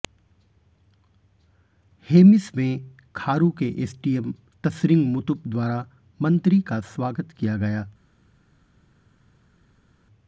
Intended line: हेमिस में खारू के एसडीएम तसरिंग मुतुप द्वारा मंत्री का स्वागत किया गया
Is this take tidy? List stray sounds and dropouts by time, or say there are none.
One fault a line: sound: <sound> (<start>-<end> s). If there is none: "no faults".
no faults